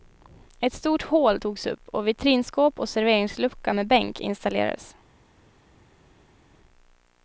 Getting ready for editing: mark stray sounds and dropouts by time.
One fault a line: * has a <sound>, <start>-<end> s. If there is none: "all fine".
all fine